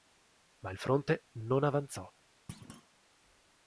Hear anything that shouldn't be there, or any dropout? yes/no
yes